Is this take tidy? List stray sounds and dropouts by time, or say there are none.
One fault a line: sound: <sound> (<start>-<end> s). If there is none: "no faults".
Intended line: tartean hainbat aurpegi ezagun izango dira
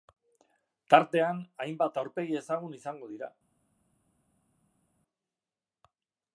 no faults